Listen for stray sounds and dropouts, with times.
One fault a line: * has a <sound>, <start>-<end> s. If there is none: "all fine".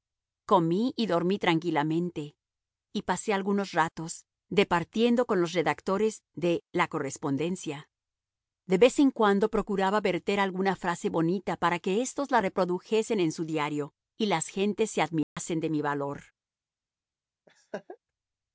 * has a dropout, 15.2-15.4 s
* has a laugh, 17.5-18.0 s